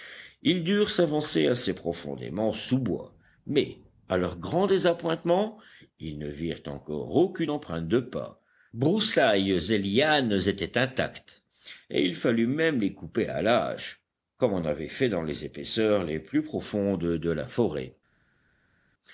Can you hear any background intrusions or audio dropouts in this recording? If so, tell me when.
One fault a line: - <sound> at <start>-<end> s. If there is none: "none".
none